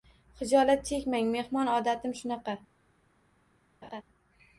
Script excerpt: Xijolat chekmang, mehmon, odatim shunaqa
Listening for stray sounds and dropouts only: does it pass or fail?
fail